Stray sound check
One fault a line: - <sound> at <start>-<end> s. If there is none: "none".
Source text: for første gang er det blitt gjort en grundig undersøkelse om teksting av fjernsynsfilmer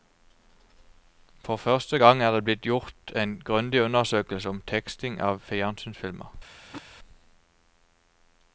- throat clearing at 6.5-6.8 s